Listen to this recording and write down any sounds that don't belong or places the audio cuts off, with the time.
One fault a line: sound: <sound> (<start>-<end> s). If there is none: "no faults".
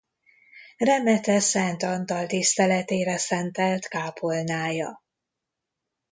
no faults